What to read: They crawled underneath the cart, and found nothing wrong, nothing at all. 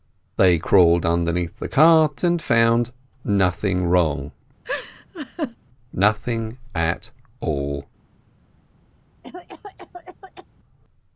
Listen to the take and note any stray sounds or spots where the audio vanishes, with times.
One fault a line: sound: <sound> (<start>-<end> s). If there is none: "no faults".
sound: laugh (4.6-5.6 s)
sound: cough (9.2-10.5 s)